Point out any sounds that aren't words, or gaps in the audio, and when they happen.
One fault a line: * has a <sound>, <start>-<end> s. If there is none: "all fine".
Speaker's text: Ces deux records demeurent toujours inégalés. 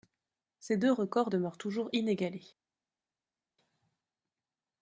all fine